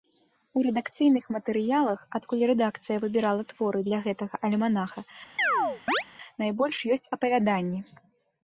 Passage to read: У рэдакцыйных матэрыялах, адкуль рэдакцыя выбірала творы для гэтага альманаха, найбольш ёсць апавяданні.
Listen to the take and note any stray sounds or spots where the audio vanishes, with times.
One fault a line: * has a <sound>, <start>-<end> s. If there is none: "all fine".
* has a chirp, 5.4-6.0 s